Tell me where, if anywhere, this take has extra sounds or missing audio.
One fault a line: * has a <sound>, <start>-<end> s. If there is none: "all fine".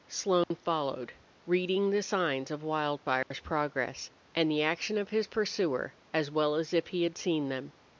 * has a dropout, 0.4-0.5 s
* has a dropout, 3.2-3.3 s